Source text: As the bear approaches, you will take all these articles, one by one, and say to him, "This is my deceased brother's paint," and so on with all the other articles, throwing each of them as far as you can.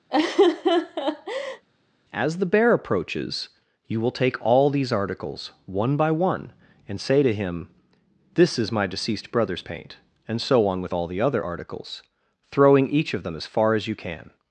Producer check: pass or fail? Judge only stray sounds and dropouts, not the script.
fail